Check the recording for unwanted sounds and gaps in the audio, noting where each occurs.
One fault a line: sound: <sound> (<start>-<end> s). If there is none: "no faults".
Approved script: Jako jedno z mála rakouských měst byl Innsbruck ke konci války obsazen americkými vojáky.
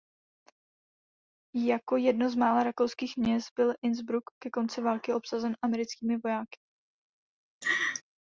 sound: laugh (7.6-8.0 s)